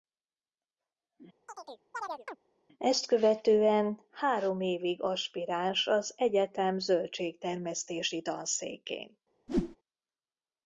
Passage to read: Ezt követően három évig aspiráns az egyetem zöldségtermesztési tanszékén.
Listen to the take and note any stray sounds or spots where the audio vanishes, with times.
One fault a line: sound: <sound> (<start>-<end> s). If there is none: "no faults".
sound: chirp (1.5-2.4 s)
sound: whoosh (9.5-9.8 s)